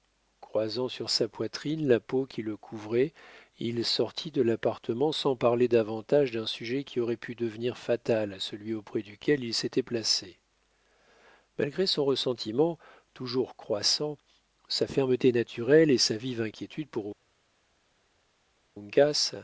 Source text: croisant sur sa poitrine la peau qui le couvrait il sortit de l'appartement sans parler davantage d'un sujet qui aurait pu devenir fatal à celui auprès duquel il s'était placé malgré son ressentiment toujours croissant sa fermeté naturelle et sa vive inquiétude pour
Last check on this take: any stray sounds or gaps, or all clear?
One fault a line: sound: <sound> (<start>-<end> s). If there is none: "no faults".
no faults